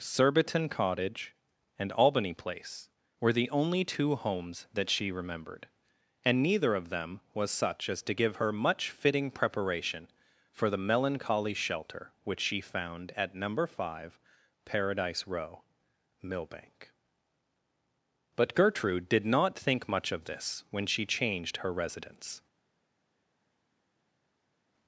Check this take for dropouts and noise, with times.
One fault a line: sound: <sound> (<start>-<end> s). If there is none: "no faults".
no faults